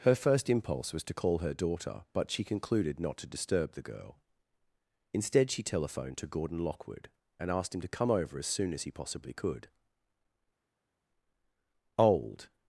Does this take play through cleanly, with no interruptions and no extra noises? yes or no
yes